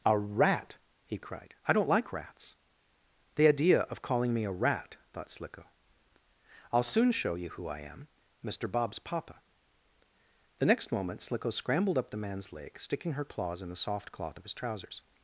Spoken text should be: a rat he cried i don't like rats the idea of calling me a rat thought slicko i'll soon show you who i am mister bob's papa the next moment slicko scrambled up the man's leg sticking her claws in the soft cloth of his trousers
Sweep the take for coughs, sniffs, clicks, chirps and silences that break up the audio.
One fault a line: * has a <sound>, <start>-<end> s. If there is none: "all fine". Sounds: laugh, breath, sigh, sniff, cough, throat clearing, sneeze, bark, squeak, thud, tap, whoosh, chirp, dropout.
all fine